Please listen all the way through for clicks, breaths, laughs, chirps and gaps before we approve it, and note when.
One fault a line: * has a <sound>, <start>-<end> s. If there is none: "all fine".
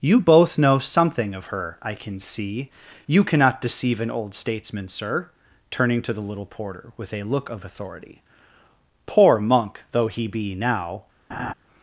* has a laugh, 11.3-11.5 s